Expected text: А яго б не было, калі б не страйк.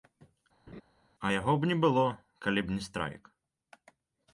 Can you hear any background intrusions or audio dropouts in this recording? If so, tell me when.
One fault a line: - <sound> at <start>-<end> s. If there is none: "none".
- laugh at 0.7-0.8 s